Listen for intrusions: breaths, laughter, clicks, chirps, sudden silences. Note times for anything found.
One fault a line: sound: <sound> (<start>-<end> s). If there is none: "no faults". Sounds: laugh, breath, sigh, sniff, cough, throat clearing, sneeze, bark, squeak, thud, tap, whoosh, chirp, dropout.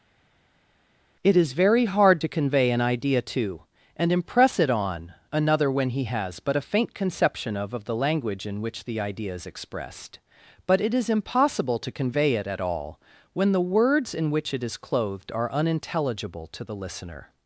no faults